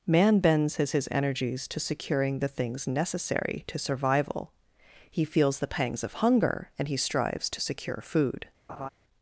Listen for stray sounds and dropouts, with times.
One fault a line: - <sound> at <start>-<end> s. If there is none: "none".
- laugh at 8.7-8.9 s